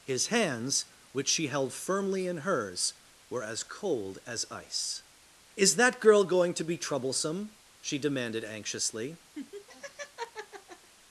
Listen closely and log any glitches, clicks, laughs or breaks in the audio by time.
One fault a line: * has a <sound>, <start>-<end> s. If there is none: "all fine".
* has a laugh, 9.4-10.9 s